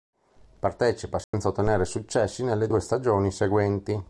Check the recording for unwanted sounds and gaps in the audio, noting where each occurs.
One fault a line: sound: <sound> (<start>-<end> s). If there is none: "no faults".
sound: dropout (1.2-1.3 s)